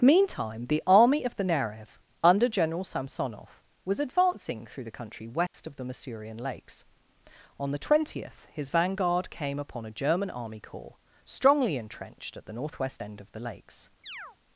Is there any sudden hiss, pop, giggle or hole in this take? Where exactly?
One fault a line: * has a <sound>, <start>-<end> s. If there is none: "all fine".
* has a dropout, 5.5-5.5 s
* has a chirp, 14.0-14.4 s